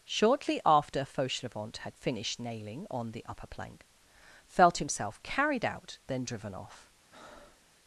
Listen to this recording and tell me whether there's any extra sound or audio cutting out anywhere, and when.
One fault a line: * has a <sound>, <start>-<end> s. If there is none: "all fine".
* has a breath, 7.1-7.7 s